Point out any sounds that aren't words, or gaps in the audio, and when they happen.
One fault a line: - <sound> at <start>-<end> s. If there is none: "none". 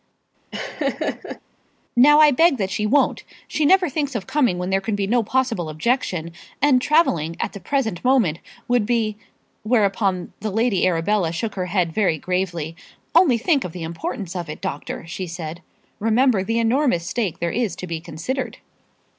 - laugh at 0.5-1.4 s